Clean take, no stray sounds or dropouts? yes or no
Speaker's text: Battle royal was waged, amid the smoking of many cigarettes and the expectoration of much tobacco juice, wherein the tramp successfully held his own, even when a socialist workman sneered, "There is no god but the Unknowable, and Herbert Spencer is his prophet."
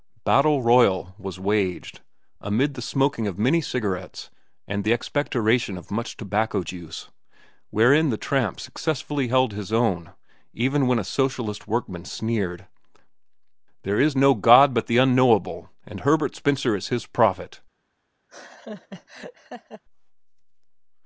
no